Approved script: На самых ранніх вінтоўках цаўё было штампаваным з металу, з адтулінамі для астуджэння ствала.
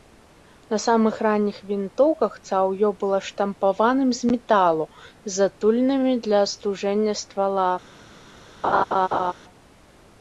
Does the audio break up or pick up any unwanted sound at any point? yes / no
yes